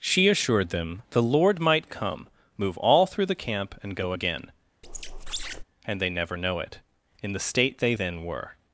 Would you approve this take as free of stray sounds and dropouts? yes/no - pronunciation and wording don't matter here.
no